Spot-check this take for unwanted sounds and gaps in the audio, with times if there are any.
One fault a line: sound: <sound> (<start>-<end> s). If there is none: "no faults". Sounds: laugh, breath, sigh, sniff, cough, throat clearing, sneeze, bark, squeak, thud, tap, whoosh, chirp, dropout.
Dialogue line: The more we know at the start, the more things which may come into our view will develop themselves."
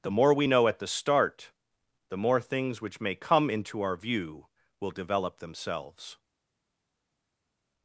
no faults